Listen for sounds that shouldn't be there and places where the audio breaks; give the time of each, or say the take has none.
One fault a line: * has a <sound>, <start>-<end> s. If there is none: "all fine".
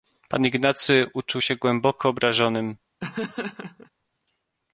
* has a laugh, 3.0-3.9 s